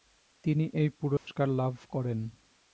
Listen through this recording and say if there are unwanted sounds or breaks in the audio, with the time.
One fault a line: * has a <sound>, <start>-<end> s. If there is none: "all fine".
* has a dropout, 1.2-1.3 s